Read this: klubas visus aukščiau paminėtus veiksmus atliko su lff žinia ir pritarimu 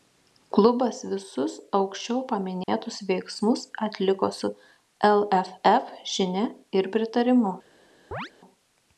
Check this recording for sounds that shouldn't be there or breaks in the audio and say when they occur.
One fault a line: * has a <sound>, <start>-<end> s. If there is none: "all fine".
* has a dropout, 2.6-2.7 s
* has a chirp, 8.1-8.3 s